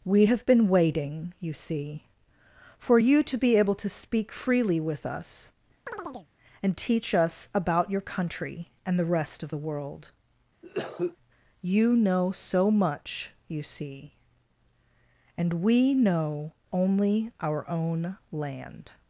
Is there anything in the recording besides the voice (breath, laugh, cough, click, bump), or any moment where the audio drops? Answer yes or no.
yes